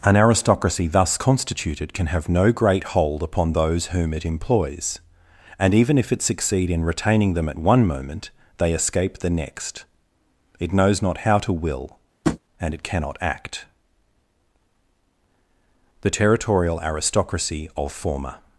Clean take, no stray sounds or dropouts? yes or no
no